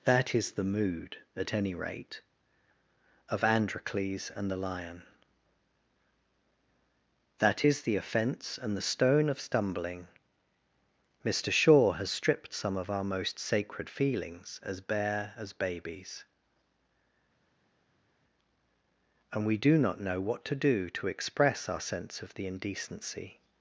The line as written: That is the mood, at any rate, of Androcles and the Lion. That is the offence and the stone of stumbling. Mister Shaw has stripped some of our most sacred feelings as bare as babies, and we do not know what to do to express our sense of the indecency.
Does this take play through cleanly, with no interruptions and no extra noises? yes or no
yes